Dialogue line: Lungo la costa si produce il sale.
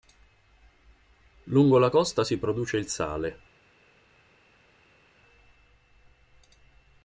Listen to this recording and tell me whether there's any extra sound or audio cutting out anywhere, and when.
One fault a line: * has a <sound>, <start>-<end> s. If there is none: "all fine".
all fine